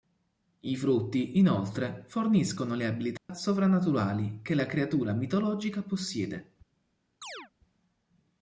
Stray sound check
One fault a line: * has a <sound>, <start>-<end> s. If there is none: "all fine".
* has a dropout, 3.2-3.3 s
* has a chirp, 7.2-7.5 s